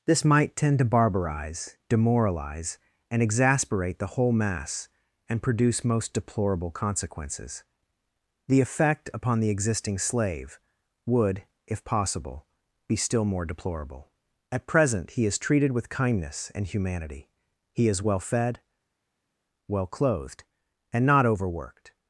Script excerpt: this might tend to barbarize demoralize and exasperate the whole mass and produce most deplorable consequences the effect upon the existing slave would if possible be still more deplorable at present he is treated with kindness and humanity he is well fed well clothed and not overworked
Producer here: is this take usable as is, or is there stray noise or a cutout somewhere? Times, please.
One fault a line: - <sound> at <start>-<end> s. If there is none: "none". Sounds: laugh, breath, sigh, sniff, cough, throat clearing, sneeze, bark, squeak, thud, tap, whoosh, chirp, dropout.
none